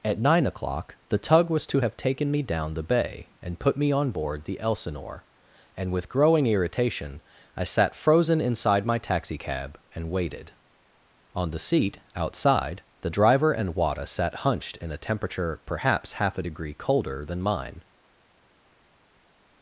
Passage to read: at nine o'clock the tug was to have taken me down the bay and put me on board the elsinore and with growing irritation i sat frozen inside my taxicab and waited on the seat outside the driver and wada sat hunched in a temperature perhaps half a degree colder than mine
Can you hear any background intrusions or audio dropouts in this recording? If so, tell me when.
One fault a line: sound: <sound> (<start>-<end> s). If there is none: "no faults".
no faults